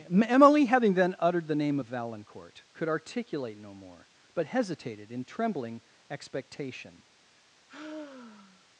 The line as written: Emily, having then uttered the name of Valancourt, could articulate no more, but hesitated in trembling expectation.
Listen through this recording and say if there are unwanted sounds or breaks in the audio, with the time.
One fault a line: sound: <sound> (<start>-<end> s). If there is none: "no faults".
sound: sigh (7.7-8.6 s)